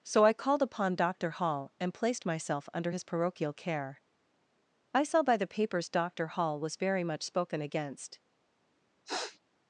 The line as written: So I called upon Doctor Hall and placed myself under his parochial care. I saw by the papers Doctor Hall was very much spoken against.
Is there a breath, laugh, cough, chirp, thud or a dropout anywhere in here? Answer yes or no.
yes